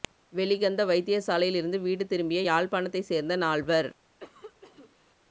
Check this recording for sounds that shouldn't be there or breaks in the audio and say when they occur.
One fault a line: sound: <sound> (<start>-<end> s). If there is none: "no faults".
sound: cough (4.2-5.1 s)